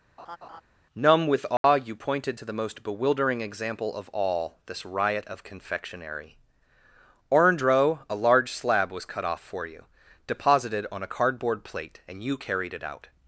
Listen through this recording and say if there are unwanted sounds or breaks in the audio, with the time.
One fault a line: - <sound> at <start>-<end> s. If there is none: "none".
- laugh at 0.2-0.6 s
- dropout at 1.6-1.6 s